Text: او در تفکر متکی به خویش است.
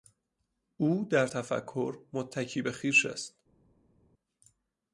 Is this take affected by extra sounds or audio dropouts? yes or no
no